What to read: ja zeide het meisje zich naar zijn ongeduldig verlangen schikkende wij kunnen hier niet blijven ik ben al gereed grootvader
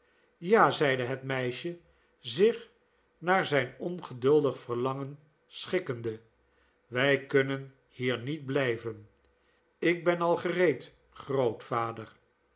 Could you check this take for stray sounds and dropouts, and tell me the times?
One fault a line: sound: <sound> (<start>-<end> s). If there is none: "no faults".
no faults